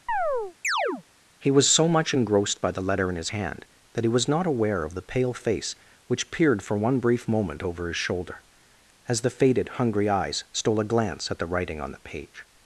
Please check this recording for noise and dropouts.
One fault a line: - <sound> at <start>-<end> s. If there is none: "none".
- chirp at 0.1-1.0 s